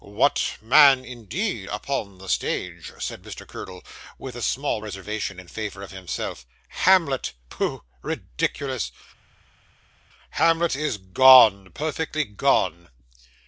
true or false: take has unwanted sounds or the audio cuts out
false